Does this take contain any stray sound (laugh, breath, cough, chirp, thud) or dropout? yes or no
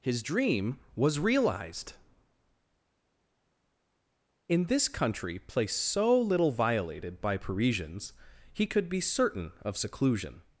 no